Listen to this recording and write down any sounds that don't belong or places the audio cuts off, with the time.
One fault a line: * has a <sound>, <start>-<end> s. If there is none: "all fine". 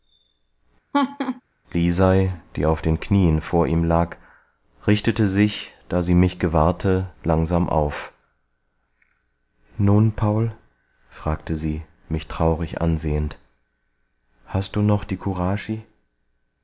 * has a laugh, 0.9-1.4 s